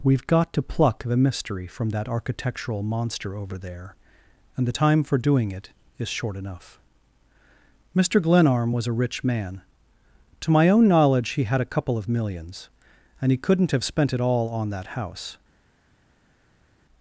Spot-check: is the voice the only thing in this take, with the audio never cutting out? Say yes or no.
yes